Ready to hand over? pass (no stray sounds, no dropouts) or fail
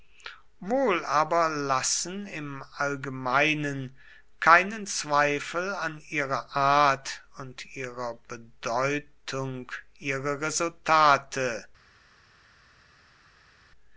pass